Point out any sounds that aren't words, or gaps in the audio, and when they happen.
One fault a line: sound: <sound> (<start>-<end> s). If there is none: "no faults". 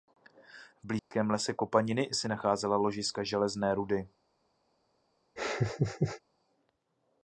sound: dropout (1.0-1.1 s)
sound: laugh (5.4-6.2 s)